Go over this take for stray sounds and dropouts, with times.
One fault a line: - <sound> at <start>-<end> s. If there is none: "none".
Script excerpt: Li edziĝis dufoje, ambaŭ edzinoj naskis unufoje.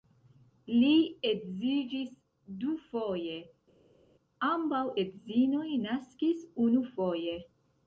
none